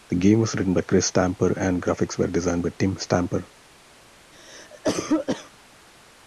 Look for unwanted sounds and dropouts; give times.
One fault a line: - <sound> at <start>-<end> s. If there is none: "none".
- cough at 4.3-5.5 s